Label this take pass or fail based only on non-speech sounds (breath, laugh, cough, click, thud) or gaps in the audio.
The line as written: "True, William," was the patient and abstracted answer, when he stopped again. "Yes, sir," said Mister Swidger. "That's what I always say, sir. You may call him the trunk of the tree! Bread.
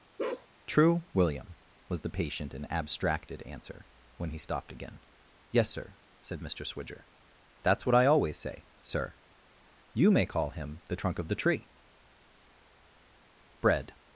fail